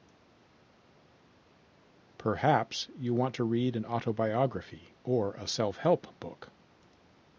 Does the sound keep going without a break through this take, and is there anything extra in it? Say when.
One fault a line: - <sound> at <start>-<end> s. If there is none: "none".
none